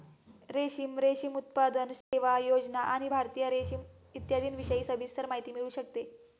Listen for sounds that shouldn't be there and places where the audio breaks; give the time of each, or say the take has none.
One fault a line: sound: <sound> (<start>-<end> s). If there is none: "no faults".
sound: dropout (2.0-2.1 s)